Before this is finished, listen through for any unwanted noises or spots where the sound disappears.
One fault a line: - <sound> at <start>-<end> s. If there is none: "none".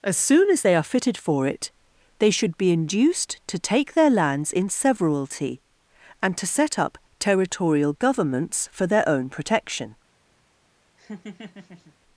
- laugh at 11.0-11.9 s